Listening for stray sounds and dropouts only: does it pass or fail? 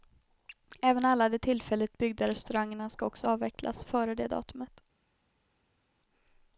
pass